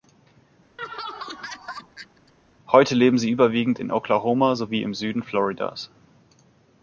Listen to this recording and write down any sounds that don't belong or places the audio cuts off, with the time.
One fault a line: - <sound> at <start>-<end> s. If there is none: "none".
- laugh at 0.8-2.3 s